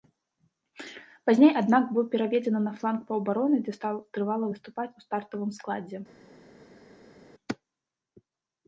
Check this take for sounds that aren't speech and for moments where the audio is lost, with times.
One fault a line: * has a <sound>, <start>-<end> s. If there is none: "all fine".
all fine